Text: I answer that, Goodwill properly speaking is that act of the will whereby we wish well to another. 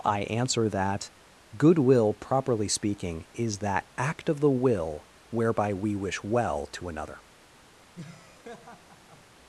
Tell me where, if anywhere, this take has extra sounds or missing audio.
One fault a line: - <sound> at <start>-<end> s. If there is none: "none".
- laugh at 7.9-9.3 s